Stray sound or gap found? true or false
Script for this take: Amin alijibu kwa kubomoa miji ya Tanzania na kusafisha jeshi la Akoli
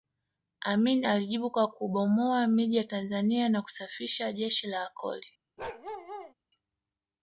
true